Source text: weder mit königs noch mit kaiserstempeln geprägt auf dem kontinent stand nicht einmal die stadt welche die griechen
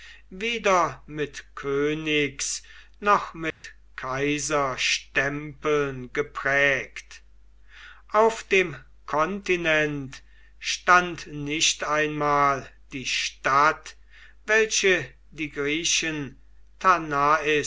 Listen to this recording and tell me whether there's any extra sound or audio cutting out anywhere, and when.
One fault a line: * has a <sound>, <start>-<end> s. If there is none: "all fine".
* has a dropout, 3.5-3.6 s